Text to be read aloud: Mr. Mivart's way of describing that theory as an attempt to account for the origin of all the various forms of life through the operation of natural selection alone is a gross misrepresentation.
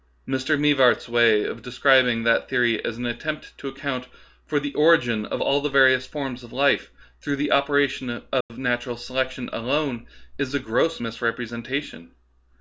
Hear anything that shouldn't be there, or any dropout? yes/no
yes